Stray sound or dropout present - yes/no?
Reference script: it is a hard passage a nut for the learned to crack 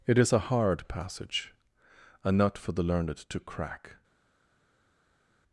no